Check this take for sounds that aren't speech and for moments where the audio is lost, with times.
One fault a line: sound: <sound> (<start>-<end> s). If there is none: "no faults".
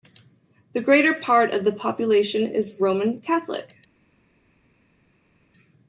no faults